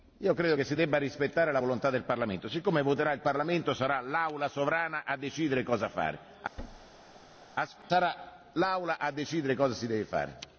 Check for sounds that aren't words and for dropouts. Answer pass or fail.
fail